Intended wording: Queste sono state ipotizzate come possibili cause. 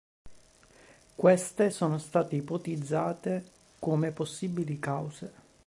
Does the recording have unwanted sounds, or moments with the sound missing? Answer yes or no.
no